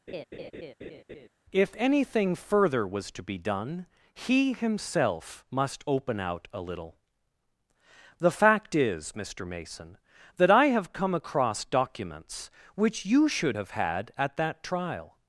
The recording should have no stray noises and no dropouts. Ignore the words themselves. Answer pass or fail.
fail